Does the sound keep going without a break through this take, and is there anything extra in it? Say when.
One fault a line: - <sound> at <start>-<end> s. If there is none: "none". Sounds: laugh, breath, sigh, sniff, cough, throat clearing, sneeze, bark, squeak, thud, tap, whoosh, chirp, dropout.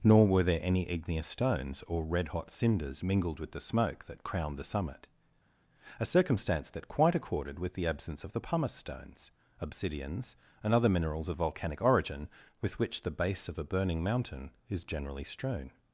none